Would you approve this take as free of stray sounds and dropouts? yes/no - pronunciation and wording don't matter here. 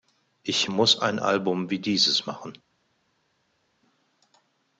yes